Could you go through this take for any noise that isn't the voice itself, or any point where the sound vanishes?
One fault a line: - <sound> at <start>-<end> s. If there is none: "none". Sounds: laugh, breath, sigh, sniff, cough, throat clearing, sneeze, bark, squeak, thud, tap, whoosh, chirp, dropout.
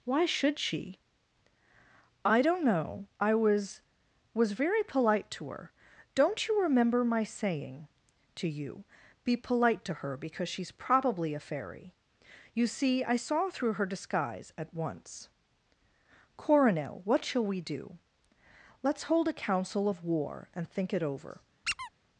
- squeak at 21.6-21.9 s